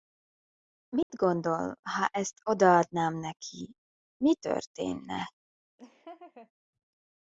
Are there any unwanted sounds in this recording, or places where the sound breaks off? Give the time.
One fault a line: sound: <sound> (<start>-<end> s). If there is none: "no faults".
sound: dropout (1.0-1.1 s)
sound: laugh (5.8-6.5 s)